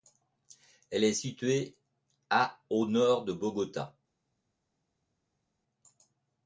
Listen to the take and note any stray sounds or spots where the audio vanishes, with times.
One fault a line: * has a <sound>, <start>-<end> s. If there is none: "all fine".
all fine